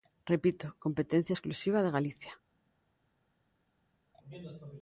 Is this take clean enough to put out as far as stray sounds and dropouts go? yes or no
yes